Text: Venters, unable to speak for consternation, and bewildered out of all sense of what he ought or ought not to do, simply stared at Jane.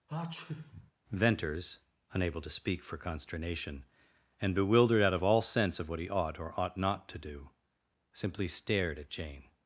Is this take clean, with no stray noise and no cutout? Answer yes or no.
no